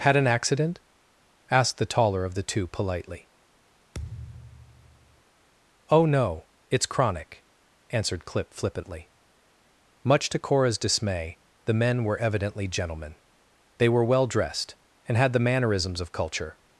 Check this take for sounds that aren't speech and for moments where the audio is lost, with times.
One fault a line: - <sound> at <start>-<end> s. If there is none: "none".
- thud at 3.9-5.2 s